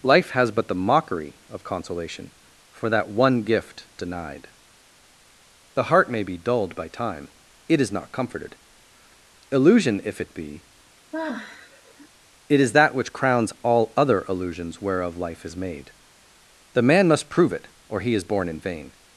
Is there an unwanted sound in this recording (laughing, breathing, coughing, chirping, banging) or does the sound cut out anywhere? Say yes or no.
yes